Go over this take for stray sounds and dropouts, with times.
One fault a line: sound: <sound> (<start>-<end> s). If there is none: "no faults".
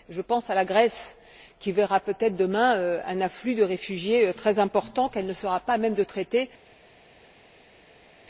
no faults